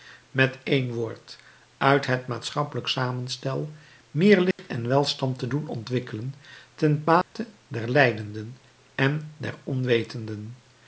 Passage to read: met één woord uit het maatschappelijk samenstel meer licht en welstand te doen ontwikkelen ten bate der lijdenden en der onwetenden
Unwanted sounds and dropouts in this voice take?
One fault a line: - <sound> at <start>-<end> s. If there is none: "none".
- dropout at 4.5-4.6 s
- dropout at 7.2-7.4 s